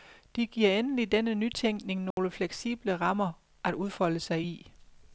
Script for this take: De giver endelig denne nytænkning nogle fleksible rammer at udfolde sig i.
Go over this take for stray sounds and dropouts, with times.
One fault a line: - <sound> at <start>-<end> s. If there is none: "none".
- dropout at 2.1-2.2 s